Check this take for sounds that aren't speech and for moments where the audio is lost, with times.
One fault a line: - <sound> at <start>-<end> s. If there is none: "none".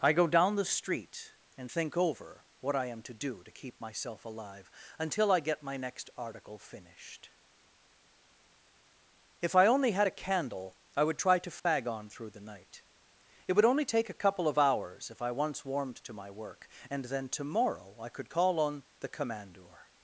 - dropout at 11.6-11.7 s